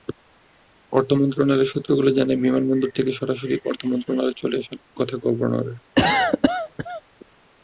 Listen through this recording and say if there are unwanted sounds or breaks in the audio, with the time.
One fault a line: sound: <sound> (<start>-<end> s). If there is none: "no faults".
sound: cough (5.9-7.0 s)